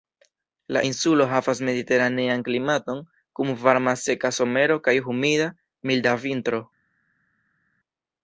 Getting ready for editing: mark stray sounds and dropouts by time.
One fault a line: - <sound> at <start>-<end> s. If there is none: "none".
none